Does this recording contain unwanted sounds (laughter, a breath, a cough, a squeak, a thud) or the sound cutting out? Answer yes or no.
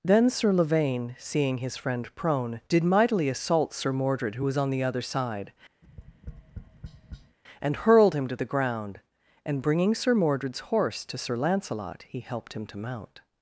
yes